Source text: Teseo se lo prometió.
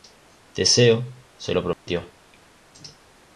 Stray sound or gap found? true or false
true